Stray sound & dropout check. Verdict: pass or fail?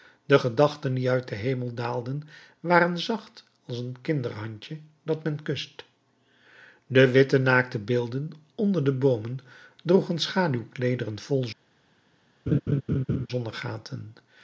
fail